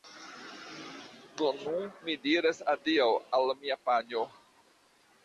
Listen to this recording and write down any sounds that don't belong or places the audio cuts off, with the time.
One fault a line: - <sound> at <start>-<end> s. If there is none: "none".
none